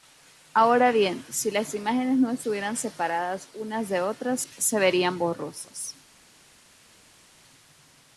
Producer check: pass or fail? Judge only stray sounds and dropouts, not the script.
pass